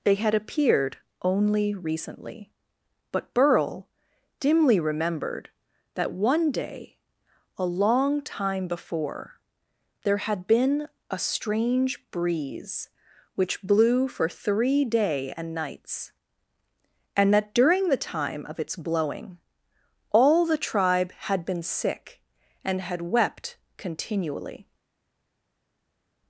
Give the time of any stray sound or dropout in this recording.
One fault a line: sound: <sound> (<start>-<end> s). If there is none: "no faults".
no faults